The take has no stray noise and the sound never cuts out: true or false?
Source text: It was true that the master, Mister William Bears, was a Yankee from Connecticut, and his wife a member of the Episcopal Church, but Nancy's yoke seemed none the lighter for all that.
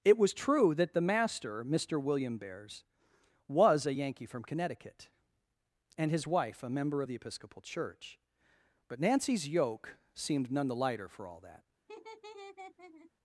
false